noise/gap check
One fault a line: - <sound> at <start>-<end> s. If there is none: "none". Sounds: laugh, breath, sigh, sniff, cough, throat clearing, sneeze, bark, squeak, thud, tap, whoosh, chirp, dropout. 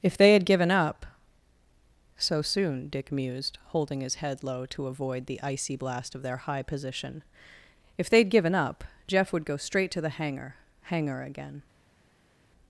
none